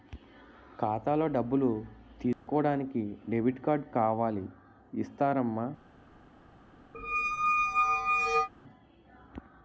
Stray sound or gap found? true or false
true